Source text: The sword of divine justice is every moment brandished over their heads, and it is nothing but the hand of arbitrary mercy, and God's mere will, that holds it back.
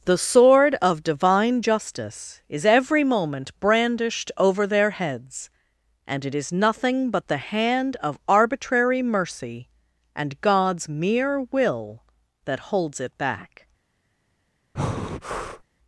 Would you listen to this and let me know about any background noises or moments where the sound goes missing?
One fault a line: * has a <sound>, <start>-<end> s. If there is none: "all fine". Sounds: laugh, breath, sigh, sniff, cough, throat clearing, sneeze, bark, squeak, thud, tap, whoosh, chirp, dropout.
* has a breath, 14.7-15.6 s